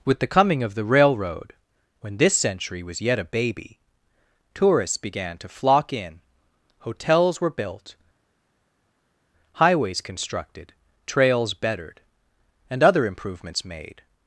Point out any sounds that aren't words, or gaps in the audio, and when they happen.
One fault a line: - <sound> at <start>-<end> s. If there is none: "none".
none